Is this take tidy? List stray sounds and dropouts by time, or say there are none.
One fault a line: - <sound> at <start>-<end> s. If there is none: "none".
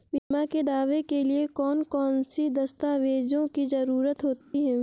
- dropout at 0.2-0.3 s
- dropout at 4.4-4.5 s